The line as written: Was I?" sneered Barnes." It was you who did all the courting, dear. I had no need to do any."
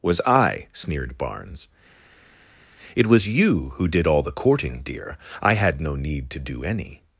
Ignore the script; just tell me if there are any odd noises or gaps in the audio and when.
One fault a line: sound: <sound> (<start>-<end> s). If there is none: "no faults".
no faults